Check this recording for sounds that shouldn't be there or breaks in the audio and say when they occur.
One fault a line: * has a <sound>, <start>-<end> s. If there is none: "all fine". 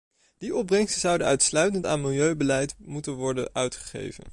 all fine